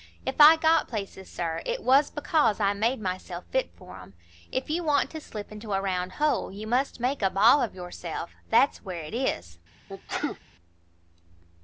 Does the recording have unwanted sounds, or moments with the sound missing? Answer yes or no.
yes